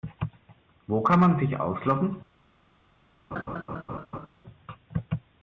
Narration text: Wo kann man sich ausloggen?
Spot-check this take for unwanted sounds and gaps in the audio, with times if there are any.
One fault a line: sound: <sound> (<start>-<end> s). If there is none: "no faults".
sound: laugh (3.3-4.3 s)